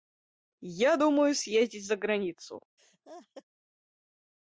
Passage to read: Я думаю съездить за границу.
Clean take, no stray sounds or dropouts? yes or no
no